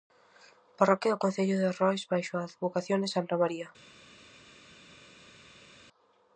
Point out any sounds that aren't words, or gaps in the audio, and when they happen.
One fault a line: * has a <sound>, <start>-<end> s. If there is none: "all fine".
all fine